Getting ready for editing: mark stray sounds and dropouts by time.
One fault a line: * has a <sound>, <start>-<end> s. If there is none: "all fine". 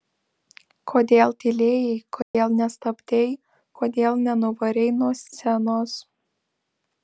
* has a dropout, 2.2-2.3 s